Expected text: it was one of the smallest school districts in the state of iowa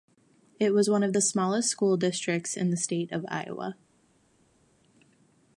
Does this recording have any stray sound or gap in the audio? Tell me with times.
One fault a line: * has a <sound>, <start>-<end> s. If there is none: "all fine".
all fine